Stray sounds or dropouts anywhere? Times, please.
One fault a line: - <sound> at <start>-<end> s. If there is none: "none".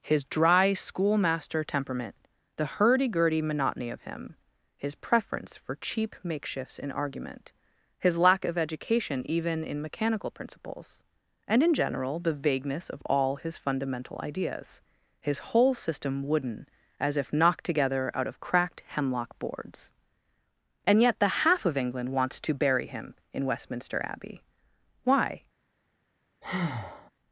- breath at 26.4-27.1 s